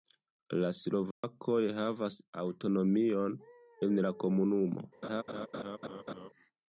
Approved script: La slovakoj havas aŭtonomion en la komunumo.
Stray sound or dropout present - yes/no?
yes